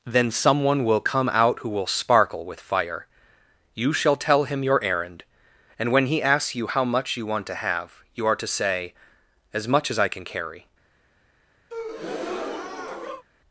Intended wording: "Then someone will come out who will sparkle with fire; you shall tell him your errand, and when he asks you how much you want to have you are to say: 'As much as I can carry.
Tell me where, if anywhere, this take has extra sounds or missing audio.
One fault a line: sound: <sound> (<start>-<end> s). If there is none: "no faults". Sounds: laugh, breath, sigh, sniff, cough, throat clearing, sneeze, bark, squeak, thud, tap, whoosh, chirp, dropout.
sound: breath (11.7-13.2 s)